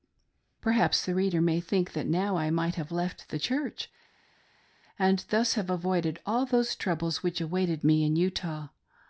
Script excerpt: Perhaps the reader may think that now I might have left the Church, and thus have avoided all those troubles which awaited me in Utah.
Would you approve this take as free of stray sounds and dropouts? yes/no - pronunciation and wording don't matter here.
yes